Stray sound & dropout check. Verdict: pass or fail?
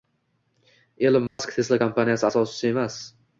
fail